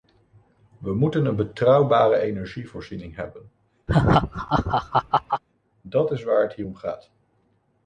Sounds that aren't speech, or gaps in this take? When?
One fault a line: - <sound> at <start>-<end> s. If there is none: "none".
- laugh at 3.9-5.4 s